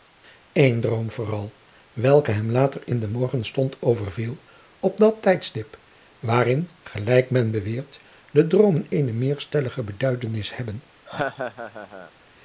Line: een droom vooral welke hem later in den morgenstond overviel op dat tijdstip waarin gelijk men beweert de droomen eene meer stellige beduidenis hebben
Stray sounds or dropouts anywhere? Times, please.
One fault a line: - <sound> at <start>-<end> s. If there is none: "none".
- laugh at 11.1-12.1 s